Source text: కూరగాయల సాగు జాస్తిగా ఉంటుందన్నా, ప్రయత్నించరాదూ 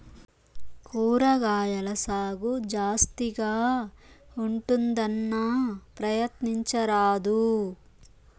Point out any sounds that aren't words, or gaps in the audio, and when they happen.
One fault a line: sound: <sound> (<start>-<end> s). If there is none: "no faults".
no faults